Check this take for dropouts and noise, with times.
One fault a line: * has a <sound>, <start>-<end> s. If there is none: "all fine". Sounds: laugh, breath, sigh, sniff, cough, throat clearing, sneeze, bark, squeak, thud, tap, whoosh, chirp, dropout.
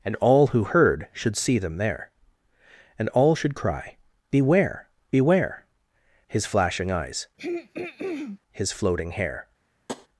* has a throat clearing, 7.4-8.4 s
* has a tap, 9.9-10.1 s